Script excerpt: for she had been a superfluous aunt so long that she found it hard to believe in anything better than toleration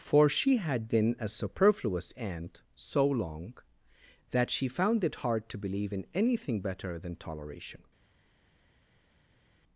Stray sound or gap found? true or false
false